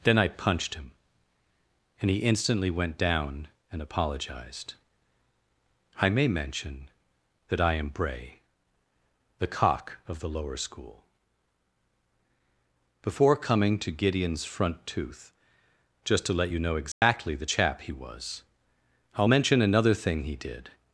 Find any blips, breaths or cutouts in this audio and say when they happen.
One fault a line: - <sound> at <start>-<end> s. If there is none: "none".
- dropout at 16.9-17.0 s